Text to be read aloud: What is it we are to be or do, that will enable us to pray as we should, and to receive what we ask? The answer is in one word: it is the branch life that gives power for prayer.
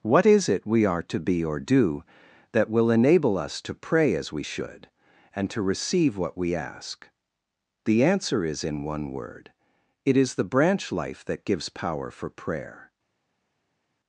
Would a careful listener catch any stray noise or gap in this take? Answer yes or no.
no